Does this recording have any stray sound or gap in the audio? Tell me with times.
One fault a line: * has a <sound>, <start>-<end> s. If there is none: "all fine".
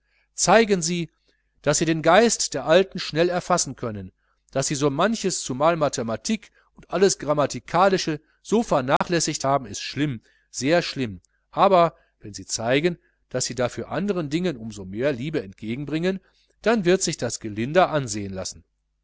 * has a dropout, 9.0-9.0 s